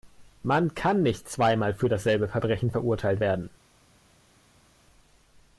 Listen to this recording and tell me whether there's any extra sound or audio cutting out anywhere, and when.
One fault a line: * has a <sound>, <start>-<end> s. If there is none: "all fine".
all fine